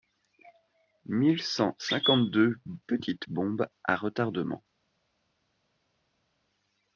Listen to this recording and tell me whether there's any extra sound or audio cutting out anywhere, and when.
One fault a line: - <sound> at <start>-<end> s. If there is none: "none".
none